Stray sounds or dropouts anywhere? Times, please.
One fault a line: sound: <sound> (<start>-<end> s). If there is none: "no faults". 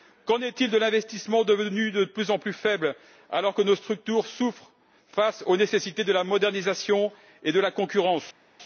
no faults